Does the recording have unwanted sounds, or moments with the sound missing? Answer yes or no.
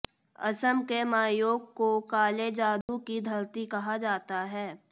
yes